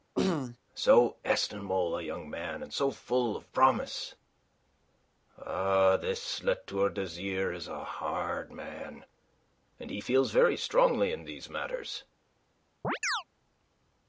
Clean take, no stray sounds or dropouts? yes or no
no